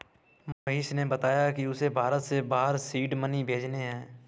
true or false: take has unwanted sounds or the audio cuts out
true